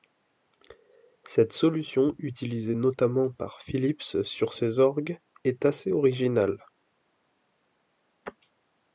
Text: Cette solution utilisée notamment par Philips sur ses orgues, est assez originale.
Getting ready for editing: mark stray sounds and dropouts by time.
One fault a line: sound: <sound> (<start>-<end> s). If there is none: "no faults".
no faults